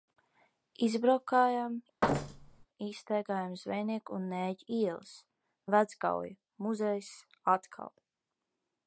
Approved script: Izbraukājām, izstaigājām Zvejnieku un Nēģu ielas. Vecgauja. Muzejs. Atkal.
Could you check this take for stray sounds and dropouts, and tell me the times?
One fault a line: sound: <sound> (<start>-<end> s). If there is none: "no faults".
sound: thud (2.0-2.7 s)